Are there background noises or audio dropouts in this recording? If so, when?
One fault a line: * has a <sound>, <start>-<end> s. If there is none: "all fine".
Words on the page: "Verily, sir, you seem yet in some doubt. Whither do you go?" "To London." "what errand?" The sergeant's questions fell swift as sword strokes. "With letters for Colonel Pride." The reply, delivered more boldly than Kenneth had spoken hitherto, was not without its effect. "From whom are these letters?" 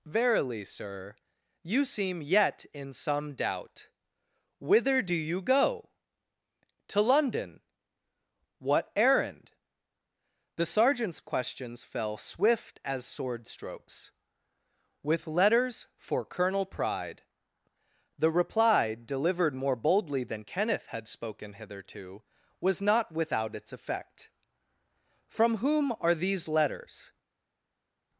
all fine